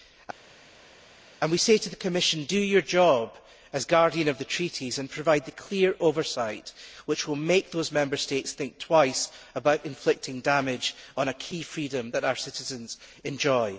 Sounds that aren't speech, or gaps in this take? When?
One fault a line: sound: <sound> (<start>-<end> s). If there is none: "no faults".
no faults